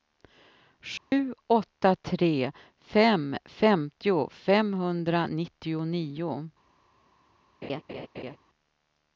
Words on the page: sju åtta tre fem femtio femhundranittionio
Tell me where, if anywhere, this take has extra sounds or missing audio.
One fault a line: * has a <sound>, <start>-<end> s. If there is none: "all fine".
* has a dropout, 1.0-1.1 s
* has a laugh, 7.6-8.4 s